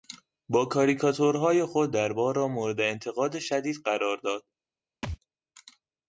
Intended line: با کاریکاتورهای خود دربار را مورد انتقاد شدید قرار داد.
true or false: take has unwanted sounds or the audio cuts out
true